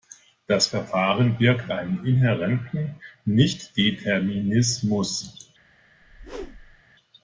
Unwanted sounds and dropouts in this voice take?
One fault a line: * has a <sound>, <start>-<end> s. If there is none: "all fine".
* has a whoosh, 6.0-6.8 s